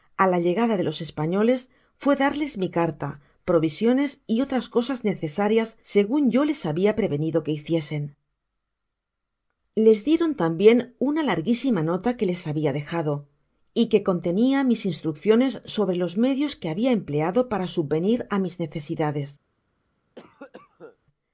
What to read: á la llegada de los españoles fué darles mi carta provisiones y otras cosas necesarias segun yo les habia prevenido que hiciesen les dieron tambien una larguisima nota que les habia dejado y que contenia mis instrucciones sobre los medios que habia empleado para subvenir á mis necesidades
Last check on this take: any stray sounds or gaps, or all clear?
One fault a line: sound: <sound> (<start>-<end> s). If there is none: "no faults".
sound: cough (20.1-21.0 s)